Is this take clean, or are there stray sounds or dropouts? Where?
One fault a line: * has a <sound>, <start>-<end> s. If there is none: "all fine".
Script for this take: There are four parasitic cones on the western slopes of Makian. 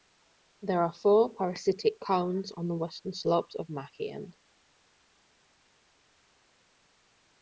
all fine